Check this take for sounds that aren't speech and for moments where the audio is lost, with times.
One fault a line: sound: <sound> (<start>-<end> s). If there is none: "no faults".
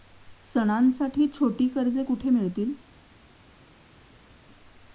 no faults